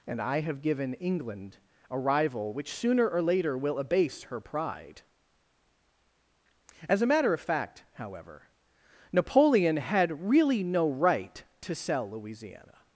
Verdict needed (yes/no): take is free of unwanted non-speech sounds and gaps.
yes